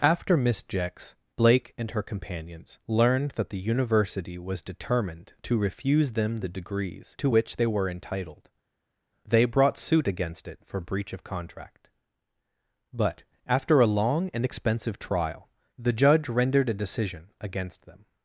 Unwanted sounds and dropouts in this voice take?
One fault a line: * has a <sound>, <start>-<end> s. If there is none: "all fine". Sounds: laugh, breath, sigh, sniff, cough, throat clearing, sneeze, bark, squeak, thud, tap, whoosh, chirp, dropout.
all fine